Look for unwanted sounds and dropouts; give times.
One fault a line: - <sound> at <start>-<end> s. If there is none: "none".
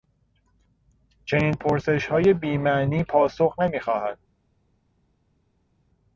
none